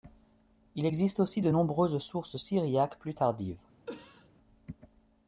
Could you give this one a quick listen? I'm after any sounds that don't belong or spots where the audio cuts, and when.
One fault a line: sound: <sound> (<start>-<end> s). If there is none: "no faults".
sound: cough (3.9-4.3 s)